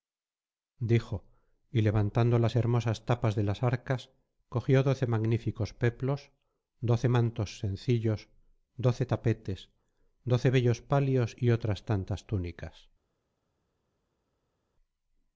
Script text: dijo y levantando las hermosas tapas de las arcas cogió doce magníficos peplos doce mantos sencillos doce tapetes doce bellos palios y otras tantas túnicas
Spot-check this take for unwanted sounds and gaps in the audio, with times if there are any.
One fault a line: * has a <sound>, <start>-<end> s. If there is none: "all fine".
all fine